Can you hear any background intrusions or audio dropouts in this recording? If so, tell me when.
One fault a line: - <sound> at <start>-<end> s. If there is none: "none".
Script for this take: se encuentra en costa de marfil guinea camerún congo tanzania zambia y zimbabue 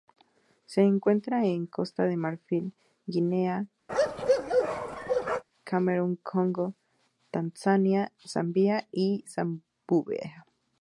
- bark at 3.9-5.4 s